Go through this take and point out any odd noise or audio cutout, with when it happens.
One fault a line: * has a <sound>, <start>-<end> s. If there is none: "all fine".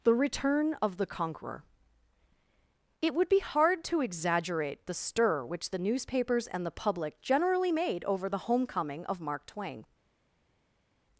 all fine